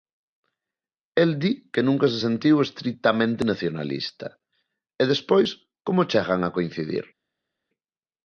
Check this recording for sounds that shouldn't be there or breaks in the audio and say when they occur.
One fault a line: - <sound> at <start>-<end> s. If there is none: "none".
none